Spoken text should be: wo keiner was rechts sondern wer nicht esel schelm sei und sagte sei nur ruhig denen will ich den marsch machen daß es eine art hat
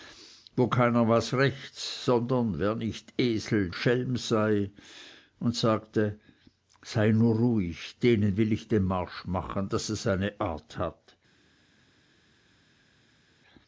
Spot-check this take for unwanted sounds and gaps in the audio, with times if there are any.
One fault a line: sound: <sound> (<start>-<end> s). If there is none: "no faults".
no faults